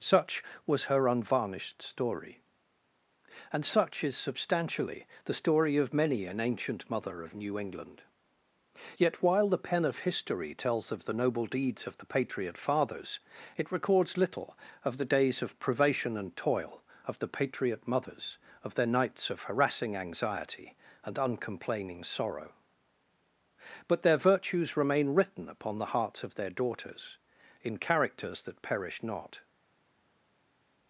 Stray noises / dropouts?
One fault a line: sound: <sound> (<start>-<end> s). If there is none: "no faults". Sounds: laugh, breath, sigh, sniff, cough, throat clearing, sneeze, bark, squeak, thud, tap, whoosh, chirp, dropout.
no faults